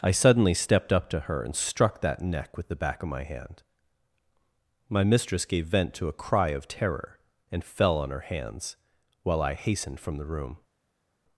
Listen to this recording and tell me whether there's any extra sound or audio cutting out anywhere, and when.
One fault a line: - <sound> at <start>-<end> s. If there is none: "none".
none